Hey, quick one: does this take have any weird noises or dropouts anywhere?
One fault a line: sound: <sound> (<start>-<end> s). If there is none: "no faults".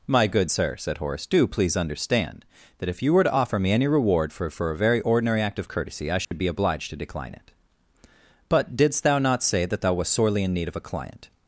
sound: dropout (6.2-6.3 s)